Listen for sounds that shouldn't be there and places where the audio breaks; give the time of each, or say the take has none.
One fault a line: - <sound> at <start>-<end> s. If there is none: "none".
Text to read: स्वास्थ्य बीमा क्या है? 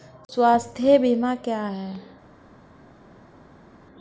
none